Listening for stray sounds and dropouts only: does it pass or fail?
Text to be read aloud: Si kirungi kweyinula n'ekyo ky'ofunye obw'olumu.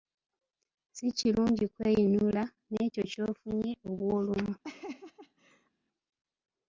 fail